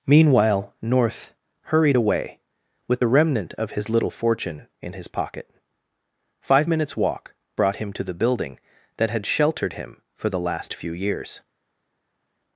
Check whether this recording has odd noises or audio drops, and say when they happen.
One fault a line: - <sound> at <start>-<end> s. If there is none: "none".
none